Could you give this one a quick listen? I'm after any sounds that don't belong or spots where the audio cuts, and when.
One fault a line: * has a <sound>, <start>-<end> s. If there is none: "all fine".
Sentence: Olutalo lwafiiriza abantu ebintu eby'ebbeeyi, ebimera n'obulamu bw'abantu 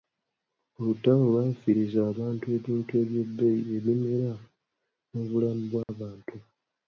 * has a dropout, 5.8-5.9 s